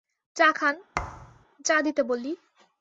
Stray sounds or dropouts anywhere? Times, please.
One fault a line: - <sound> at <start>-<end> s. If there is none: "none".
- thud at 0.9-1.5 s